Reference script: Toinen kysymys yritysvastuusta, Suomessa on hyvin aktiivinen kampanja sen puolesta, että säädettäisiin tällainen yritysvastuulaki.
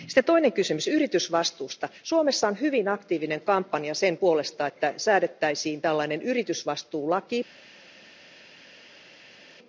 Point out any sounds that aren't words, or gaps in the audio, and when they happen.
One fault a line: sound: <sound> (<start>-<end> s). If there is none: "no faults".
no faults